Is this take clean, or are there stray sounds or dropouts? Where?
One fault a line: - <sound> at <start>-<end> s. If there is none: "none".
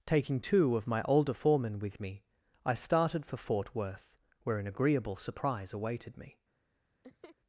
- laugh at 7.0-7.4 s